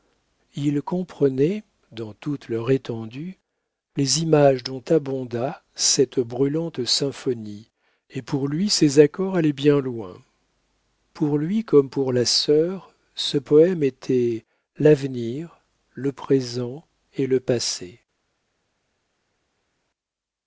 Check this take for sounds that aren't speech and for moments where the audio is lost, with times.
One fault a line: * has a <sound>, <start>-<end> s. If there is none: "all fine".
all fine